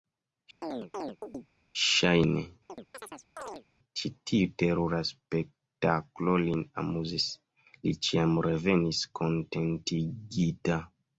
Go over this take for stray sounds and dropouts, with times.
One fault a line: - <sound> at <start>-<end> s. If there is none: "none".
- chirp at 0.6-1.5 s
- chirp at 2.7-3.6 s